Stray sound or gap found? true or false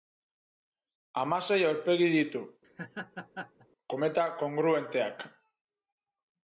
true